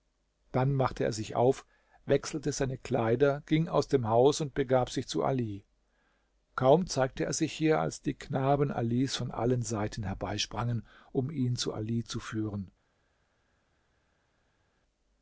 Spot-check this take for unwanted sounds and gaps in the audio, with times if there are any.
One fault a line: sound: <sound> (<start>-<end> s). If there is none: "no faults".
no faults